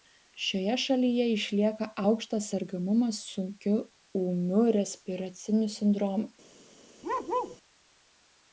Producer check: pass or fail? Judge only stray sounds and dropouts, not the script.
fail